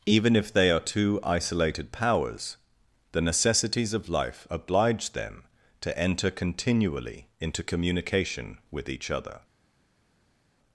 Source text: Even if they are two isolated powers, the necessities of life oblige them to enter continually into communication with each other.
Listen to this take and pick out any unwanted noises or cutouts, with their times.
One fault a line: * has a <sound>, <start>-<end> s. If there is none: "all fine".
all fine